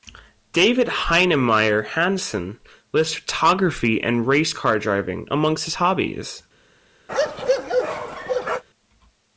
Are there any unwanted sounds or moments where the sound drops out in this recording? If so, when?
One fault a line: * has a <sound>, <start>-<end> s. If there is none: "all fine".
* has a bark, 7.1-8.6 s